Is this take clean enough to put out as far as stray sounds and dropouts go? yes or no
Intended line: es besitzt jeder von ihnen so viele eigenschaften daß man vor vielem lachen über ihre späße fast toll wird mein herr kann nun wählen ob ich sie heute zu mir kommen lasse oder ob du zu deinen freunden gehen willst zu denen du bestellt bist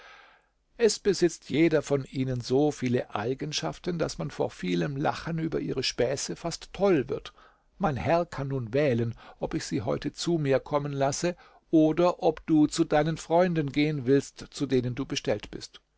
yes